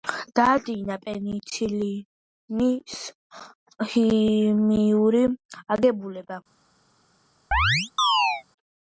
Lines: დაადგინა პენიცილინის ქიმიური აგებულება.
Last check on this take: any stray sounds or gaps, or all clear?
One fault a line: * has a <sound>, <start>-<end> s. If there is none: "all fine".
* has a chirp, 7.5-8.4 s